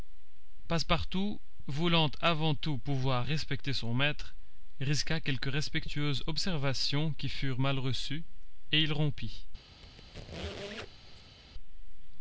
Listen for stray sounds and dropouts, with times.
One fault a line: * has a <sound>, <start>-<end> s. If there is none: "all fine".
* has a squeak, 9.8-11.4 s